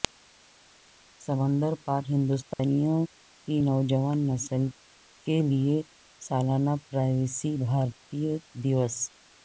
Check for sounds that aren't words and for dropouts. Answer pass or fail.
fail